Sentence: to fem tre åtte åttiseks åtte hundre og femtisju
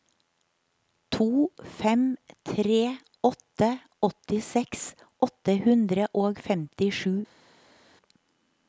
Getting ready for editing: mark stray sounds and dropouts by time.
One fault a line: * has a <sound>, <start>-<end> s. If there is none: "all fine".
all fine